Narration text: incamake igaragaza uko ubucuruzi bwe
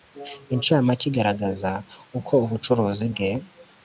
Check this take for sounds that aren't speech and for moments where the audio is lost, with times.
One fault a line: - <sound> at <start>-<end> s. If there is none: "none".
none